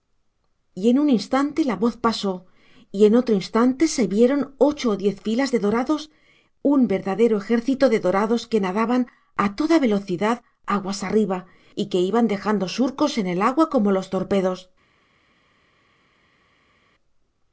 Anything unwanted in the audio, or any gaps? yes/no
no